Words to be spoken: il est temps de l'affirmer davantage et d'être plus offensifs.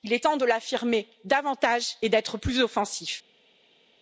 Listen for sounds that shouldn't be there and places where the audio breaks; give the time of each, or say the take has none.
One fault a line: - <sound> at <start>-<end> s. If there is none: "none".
none